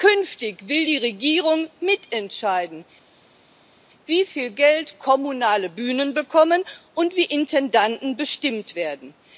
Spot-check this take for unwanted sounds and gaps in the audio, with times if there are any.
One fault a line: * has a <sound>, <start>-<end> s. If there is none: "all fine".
all fine